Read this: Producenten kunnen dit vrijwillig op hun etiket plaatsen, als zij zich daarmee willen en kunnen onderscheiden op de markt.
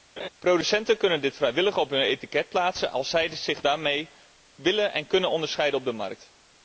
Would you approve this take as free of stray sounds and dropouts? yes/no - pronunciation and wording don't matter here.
no